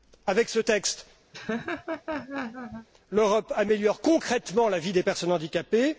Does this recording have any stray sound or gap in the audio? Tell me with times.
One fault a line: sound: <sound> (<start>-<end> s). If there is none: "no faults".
sound: laugh (1.3-2.9 s)